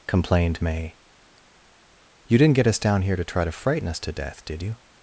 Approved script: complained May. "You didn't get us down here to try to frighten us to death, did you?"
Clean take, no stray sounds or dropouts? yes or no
yes